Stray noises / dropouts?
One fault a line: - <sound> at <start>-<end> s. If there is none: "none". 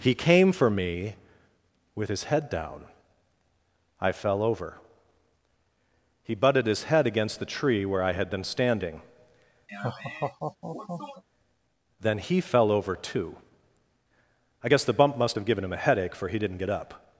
- laugh at 9.7-11.2 s